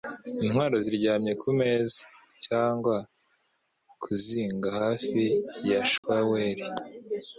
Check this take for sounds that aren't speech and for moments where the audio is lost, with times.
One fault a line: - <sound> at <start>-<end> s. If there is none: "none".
- dropout at 6.0-6.0 s